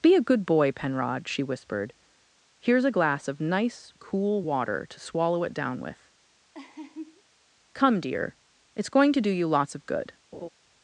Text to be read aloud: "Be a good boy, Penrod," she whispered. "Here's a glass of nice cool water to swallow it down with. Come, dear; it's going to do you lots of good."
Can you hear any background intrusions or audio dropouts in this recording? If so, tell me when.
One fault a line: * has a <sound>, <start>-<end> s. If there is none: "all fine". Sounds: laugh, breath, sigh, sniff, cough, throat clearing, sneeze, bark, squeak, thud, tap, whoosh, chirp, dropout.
* has a laugh, 6.5-7.2 s
* has a laugh, 10.3-10.5 s